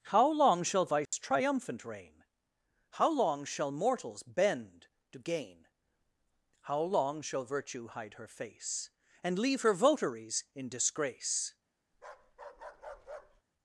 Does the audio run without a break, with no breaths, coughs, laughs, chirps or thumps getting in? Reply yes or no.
no